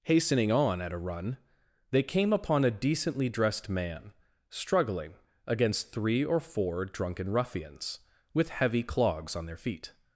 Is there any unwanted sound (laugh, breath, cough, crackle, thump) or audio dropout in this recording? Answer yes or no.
no